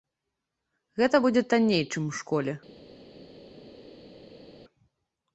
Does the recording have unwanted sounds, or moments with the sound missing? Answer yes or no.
no